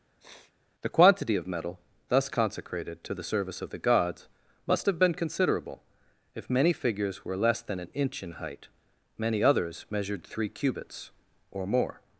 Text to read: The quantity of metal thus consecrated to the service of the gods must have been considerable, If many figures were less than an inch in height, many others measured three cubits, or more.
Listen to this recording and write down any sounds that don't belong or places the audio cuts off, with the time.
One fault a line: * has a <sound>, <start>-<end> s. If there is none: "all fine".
* has a sniff, 0.2-0.5 s